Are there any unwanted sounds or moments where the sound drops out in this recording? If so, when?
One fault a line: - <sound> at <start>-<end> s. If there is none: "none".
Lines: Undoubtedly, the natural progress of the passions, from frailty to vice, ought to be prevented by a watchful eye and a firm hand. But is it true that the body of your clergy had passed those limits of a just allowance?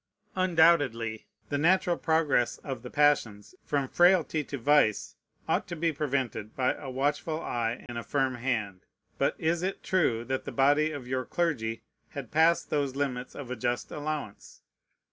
- dropout at 7.9-7.9 s